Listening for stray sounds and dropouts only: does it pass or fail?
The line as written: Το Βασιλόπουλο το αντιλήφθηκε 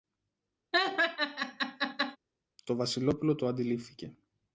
fail